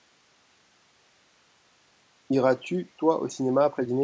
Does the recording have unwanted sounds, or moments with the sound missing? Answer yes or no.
no